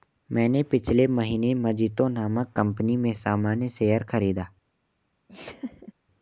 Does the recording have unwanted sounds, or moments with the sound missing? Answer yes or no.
yes